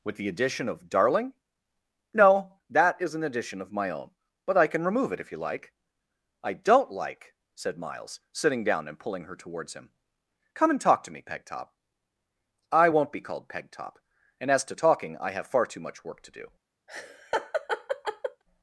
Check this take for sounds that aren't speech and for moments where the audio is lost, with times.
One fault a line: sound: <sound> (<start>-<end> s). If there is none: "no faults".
sound: laugh (16.9-18.4 s)